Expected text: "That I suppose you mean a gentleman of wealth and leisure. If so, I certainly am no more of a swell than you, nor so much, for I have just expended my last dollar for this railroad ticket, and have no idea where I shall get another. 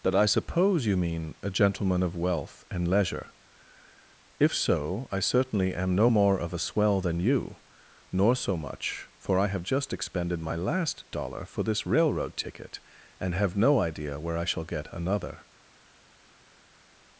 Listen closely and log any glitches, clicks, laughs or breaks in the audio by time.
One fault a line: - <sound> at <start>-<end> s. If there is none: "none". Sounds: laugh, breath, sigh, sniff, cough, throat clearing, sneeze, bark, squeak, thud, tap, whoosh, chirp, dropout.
none